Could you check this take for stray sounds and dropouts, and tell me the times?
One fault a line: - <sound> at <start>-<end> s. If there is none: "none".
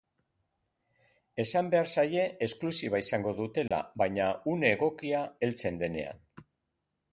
- dropout at 3.7-3.7 s